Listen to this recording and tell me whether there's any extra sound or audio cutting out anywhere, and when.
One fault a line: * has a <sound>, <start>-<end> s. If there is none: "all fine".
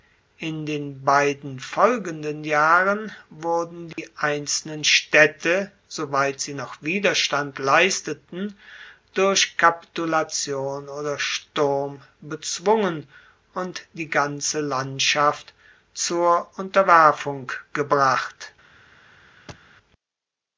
* has a dropout, 3.9-4.0 s
* has a thud, 19.5-19.7 s